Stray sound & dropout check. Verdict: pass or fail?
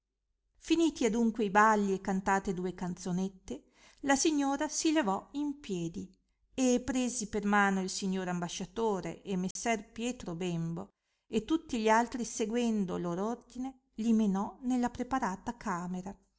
fail